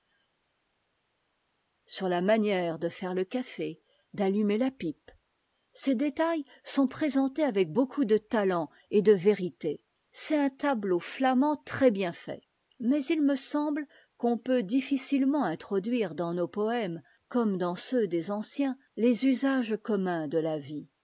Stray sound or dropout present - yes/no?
no